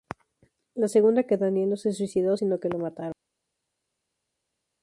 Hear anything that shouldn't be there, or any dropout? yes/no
no